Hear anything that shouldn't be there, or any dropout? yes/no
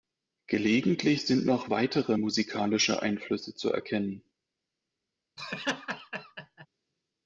yes